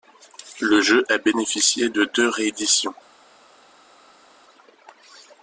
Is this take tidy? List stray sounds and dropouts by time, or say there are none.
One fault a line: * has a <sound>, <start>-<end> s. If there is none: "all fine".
all fine